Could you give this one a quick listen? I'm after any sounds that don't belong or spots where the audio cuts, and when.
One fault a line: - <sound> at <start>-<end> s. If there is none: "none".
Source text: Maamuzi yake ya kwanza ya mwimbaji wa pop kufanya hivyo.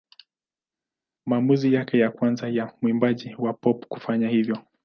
none